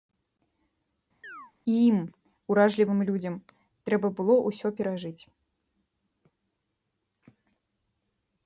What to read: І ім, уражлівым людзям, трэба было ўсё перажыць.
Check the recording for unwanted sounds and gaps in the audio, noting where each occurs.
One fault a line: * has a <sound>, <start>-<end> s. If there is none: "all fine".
* has a chirp, 1.2-1.5 s